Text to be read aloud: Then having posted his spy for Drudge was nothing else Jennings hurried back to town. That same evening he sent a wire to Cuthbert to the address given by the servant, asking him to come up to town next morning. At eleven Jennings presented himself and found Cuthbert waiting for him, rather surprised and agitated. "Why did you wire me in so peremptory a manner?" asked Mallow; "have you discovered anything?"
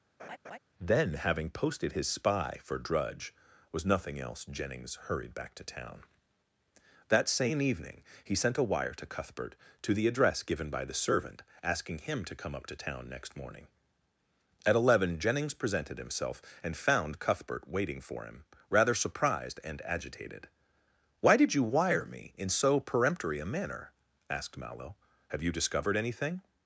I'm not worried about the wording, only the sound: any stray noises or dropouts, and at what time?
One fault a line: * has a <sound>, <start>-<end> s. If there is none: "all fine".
* has a laugh, 0.2-0.6 s